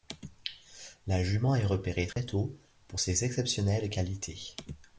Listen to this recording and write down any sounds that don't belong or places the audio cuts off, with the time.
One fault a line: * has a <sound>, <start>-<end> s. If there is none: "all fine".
* has a dropout, 2.1-2.2 s